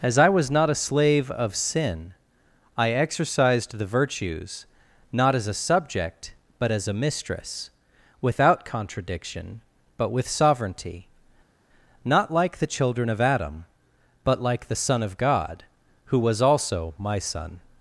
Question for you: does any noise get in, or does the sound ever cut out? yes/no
no